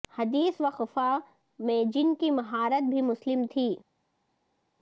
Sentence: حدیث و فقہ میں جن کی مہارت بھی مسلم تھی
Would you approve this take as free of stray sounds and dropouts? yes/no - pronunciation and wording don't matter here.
yes